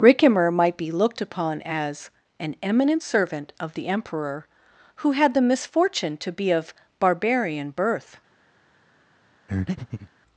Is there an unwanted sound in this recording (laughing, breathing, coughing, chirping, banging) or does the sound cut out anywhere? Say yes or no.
yes